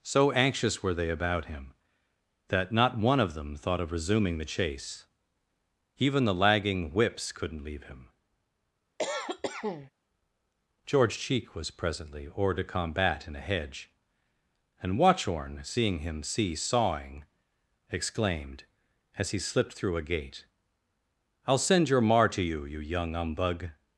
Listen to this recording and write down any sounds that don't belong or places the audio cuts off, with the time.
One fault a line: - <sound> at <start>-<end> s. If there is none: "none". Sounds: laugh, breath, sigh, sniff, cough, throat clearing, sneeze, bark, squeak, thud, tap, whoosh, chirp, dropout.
- cough at 9.0-9.9 s